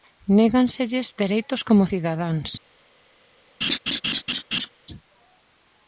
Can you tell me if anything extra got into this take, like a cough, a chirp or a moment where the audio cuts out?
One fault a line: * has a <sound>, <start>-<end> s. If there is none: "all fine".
* has a laugh, 3.6-4.7 s